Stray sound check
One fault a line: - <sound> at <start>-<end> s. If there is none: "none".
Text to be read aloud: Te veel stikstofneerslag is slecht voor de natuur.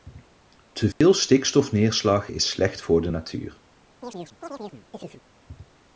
- dropout at 0.9-1.0 s
- chirp at 4.0-5.2 s